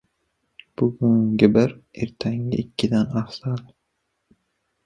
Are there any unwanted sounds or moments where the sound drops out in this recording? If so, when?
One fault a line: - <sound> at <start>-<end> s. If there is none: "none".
none